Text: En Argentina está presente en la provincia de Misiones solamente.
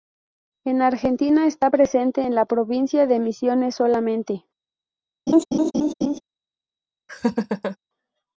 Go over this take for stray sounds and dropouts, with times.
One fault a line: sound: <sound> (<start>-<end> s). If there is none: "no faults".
sound: laugh (5.3-6.2 s)
sound: laugh (7.1-7.8 s)